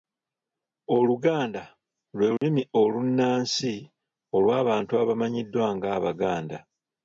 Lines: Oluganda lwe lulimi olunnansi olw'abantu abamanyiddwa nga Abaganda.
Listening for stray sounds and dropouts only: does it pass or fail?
fail